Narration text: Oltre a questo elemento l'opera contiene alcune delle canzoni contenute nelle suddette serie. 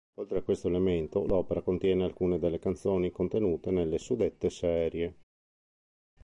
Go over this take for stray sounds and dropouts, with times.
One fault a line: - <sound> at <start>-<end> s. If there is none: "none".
none